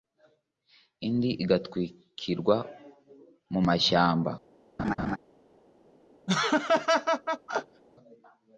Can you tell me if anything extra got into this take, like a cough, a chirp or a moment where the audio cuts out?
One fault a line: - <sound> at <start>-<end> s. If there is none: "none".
- laugh at 4.8-5.2 s
- laugh at 6.3-7.8 s